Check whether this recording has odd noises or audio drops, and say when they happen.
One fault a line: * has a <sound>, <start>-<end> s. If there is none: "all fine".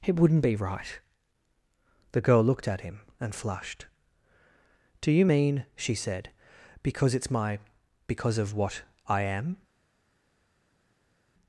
all fine